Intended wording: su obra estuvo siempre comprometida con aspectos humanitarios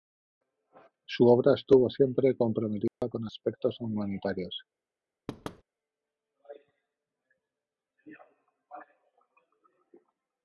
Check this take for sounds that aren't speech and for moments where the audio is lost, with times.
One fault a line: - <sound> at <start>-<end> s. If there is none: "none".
- dropout at 2.9-3.0 s
- thud at 5.3-5.6 s